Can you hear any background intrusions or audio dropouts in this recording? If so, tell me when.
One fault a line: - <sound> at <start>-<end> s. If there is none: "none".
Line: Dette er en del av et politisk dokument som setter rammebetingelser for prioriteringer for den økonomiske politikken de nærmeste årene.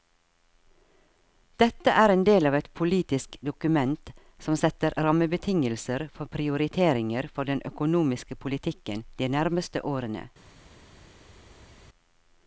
none